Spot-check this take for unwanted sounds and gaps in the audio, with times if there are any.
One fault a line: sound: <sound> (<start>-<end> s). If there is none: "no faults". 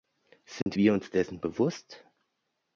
sound: dropout (0.6-0.7 s)